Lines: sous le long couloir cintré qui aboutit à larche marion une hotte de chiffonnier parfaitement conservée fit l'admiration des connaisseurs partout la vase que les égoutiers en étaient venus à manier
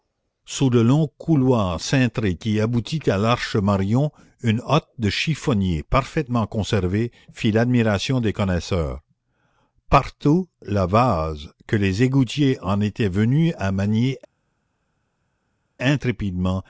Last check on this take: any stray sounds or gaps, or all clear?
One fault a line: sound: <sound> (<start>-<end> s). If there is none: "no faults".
no faults